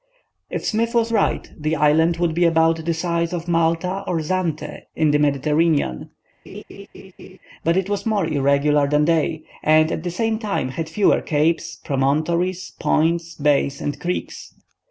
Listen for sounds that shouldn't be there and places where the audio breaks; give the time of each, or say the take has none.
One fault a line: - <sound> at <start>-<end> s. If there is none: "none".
- laugh at 6.5-7.4 s